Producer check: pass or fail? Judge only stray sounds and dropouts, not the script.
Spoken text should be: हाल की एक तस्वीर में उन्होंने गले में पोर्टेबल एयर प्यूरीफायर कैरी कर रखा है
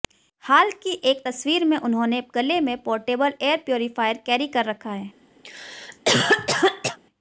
fail